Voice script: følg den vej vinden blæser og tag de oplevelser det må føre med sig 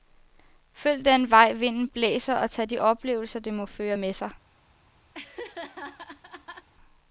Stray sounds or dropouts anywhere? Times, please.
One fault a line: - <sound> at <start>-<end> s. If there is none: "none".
- laugh at 5.1-6.7 s